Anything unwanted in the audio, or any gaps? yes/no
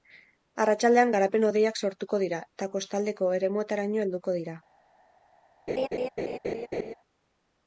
yes